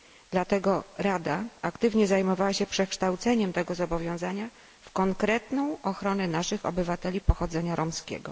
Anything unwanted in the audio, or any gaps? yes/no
no